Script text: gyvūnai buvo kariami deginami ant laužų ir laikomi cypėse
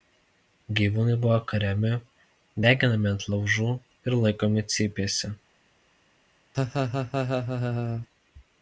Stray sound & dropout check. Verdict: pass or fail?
fail